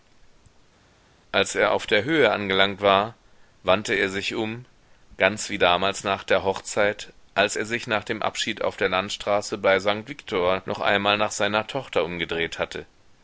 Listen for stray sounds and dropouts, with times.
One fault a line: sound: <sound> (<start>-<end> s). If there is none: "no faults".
no faults